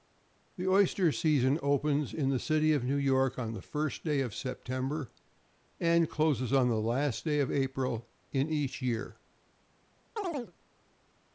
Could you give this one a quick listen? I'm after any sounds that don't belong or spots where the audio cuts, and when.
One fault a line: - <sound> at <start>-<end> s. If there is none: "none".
- chirp at 10.2-10.5 s